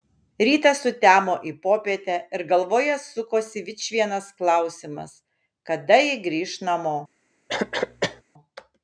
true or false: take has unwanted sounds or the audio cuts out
true